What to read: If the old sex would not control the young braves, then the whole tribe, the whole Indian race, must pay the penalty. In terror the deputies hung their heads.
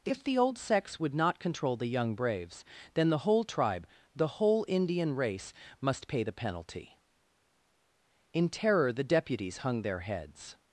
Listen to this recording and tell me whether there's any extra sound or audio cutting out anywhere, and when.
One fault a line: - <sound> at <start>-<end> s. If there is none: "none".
none